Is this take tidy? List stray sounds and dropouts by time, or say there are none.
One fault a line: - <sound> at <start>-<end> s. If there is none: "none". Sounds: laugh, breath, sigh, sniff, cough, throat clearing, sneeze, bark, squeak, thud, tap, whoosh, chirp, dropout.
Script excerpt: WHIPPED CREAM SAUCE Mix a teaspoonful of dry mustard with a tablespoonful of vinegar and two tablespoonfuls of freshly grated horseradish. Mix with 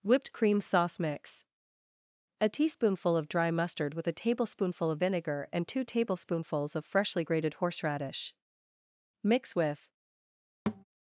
- thud at 10.7-10.8 s